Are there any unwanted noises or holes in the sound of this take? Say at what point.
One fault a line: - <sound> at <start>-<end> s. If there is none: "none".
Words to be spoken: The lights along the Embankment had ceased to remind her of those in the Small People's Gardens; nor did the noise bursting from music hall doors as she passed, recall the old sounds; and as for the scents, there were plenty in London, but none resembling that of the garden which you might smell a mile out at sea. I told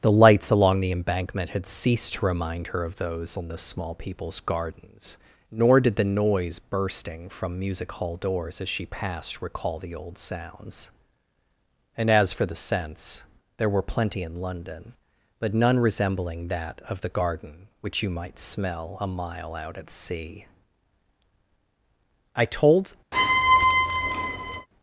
- squeak at 23.1-24.7 s